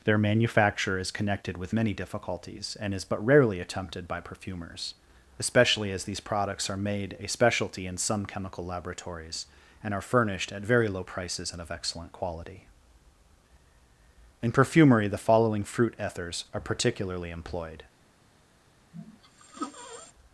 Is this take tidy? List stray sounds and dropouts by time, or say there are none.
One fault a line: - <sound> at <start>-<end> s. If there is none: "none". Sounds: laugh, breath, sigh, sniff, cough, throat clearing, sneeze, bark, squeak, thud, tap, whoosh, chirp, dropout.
- sneeze at 18.9-20.1 s